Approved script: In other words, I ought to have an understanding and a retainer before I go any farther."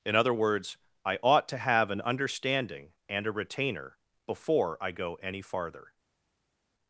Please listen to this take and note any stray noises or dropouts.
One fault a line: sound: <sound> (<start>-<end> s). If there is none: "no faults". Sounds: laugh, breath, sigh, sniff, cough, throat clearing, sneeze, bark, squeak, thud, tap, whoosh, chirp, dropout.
no faults